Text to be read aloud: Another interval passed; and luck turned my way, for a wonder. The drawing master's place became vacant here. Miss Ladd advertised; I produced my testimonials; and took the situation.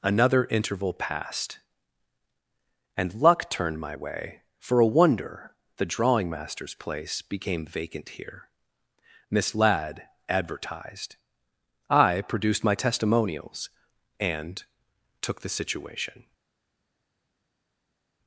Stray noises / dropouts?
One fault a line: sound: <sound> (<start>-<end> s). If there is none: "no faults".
no faults